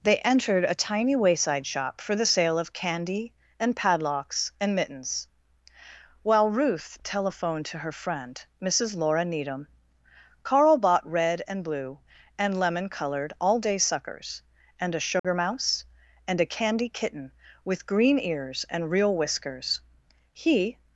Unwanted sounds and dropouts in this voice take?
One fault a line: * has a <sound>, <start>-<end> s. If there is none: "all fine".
* has a dropout, 15.2-15.2 s